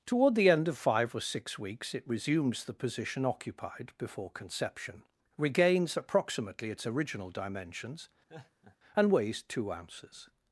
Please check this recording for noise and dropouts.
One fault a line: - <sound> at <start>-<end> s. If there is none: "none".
- laugh at 8.3-8.8 s